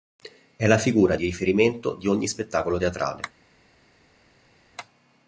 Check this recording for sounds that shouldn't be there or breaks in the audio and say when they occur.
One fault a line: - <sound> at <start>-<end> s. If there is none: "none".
none